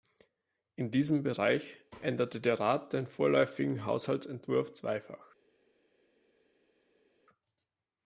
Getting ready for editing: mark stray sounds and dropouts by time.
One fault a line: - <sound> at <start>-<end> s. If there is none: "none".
none